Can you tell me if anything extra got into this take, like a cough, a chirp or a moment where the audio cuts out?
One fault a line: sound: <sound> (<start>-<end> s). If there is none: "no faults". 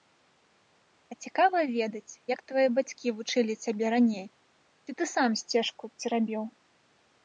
no faults